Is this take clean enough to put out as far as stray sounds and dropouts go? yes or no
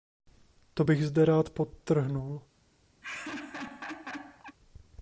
no